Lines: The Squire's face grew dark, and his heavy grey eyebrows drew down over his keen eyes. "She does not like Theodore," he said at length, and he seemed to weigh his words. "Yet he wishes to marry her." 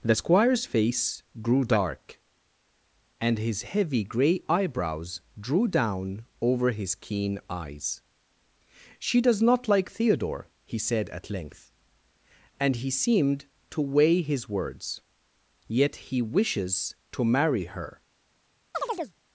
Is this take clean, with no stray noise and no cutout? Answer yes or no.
no